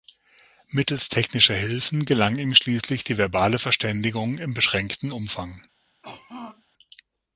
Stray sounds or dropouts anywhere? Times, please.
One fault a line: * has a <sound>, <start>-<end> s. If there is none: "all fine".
* has a throat clearing, 6.0-6.6 s